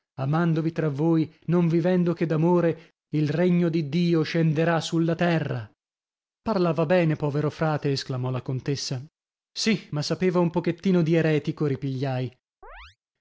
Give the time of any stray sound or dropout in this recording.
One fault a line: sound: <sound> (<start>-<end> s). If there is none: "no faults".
sound: chirp (12.6-13.0 s)